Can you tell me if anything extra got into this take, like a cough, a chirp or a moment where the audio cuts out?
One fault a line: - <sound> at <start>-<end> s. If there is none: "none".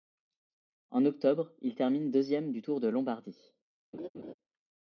- laugh at 3.9-4.3 s